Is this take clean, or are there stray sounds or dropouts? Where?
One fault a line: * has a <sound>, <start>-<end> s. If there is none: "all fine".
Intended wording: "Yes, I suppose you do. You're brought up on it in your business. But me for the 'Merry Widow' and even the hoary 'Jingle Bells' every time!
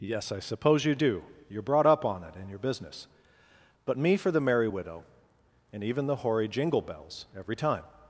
all fine